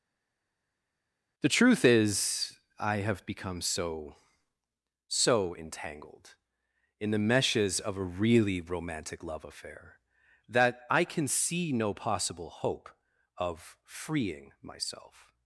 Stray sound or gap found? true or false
false